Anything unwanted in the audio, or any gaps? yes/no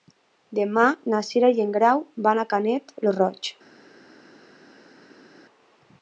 no